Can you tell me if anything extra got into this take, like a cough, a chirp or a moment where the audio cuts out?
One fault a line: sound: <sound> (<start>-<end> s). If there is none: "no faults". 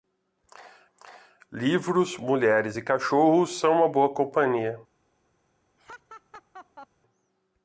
sound: laugh (5.8-6.9 s)